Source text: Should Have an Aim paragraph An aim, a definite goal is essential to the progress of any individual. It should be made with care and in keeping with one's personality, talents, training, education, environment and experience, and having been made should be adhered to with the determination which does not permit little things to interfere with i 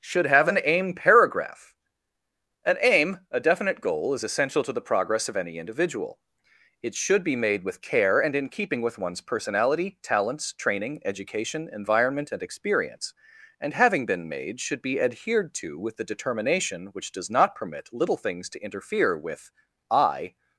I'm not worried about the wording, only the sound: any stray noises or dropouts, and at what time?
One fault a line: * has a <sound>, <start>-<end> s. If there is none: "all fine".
all fine